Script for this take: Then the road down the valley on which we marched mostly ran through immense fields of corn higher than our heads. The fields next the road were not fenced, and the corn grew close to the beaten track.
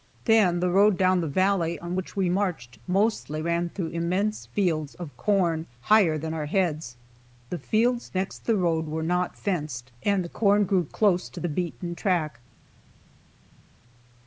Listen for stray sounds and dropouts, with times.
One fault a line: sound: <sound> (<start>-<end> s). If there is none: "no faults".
no faults